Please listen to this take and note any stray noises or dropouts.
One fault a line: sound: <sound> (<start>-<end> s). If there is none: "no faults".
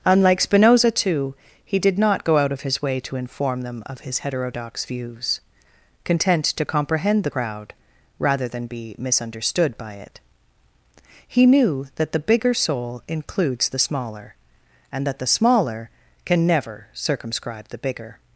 no faults